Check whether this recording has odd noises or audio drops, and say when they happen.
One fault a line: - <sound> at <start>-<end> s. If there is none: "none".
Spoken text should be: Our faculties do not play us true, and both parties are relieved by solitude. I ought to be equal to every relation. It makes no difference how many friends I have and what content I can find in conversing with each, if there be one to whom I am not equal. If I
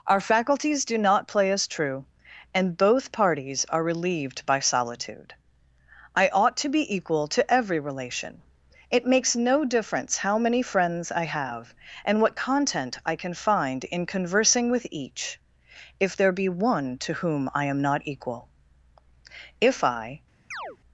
- chirp at 20.5-20.8 s